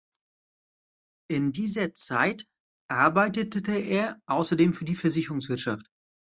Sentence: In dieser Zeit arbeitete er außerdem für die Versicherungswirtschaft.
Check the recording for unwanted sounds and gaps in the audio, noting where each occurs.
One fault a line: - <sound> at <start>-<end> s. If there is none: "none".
none